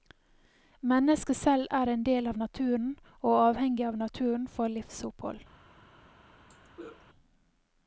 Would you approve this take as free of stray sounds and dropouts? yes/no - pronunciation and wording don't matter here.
no